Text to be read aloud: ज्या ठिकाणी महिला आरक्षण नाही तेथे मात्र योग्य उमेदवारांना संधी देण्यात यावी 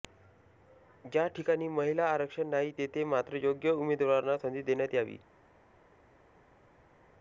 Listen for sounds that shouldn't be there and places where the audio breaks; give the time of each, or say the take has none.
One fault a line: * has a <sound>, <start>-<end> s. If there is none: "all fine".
all fine